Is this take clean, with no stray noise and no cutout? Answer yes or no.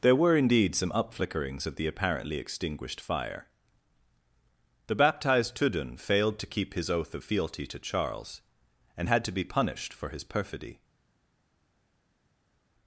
yes